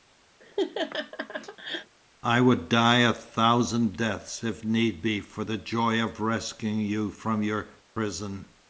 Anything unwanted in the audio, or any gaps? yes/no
yes